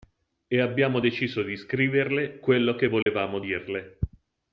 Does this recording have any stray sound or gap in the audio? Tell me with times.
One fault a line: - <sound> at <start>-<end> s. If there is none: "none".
- dropout at 3.0-3.1 s